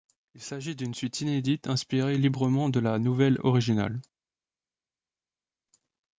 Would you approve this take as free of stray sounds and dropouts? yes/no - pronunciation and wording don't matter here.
yes